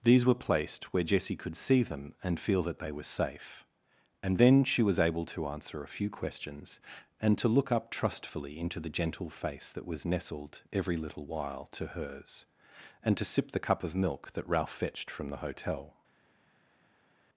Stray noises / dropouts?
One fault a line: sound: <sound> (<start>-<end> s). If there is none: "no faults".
no faults